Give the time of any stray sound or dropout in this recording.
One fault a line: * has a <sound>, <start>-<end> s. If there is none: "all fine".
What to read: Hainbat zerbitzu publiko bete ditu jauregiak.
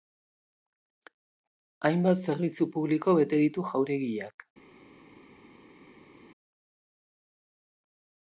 all fine